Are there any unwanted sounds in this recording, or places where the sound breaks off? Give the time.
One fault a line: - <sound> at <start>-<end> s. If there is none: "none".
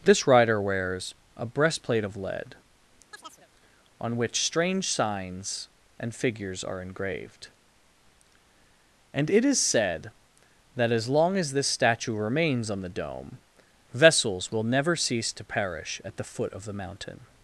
- chirp at 3.1-3.5 s